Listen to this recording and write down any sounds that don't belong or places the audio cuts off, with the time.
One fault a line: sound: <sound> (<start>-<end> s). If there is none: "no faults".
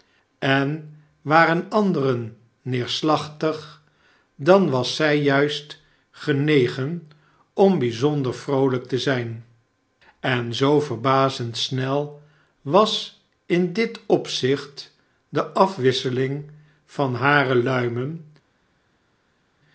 no faults